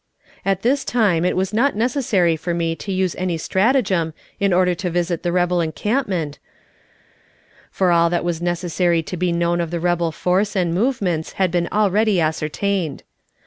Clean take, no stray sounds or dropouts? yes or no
yes